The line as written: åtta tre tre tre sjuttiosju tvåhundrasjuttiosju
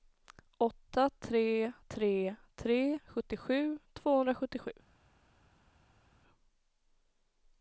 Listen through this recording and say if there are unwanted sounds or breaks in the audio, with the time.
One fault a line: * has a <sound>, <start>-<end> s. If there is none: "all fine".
all fine